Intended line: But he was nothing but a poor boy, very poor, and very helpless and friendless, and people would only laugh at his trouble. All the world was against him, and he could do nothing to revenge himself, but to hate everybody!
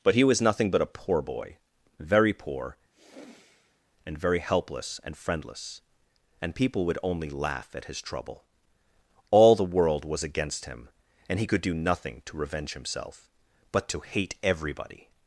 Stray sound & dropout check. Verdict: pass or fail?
fail